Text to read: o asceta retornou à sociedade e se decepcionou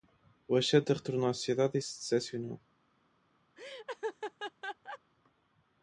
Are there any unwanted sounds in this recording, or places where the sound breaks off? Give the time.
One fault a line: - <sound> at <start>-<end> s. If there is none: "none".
- laugh at 3.6-5.0 s